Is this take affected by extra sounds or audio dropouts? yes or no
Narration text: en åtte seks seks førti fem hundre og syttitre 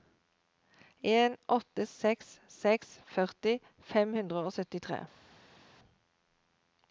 no